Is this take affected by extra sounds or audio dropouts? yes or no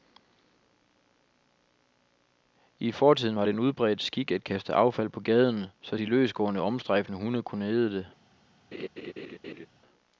yes